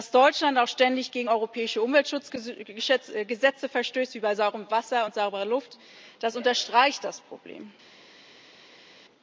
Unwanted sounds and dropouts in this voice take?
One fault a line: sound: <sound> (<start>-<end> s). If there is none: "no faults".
no faults